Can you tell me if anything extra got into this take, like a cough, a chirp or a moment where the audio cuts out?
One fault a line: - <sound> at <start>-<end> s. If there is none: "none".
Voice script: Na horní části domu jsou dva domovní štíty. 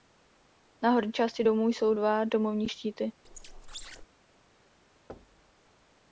- squeak at 3.2-4.1 s
- thud at 5.1-5.5 s